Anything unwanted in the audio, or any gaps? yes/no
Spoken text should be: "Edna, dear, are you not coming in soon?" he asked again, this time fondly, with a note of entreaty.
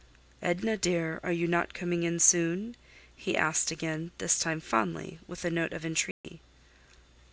yes